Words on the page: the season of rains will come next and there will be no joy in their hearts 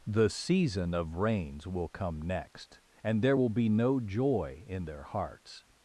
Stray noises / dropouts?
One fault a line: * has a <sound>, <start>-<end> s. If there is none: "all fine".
all fine